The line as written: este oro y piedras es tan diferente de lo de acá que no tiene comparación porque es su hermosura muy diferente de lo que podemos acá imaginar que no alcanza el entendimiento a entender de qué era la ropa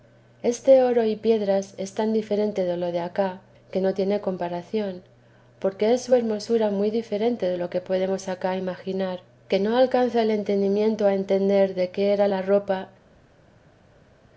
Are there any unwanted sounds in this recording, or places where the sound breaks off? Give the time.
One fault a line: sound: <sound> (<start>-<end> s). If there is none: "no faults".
no faults